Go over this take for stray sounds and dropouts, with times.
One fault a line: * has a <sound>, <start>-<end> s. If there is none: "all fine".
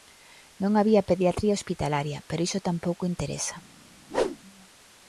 * has a whoosh, 4.1-4.4 s